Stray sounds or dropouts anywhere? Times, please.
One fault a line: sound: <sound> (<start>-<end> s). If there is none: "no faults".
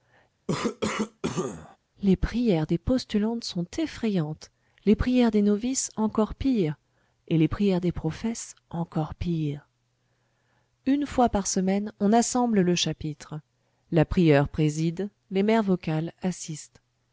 sound: cough (0.5-1.8 s)